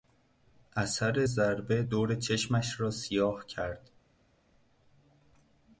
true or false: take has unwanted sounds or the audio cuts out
false